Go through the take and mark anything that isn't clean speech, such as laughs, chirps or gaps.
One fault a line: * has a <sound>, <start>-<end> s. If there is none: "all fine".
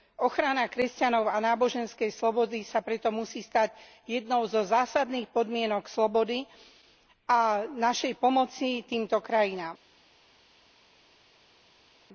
all fine